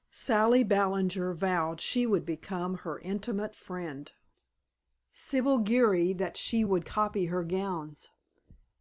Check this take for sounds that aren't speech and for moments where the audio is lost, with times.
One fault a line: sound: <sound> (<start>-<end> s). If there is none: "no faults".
no faults